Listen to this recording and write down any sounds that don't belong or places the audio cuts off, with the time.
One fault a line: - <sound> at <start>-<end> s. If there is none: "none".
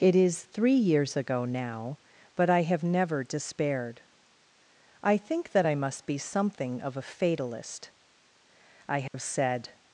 - dropout at 9.1-9.1 s